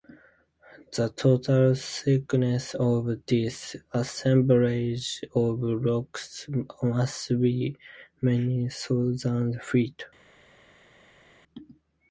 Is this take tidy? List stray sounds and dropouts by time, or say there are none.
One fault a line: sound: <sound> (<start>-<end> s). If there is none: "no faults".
no faults